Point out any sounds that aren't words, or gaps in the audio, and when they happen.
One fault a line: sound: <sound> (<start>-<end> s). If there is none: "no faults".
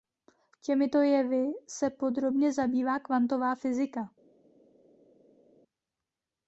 no faults